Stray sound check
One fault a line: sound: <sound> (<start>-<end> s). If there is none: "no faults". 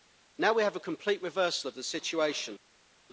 no faults